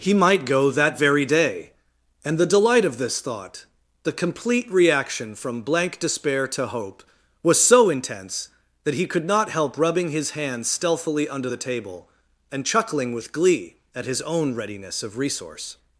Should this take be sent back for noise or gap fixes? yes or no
no